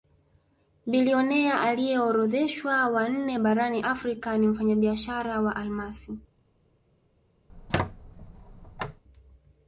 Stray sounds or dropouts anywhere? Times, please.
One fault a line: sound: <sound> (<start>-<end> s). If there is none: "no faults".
sound: squeak (7.5-9.0 s)